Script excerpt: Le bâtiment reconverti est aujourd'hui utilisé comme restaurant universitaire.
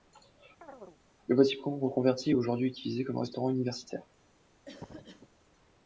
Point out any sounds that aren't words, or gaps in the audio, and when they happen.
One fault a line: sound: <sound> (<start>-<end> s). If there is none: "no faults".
sound: chirp (0.6-1.0 s)
sound: cough (4.7-5.3 s)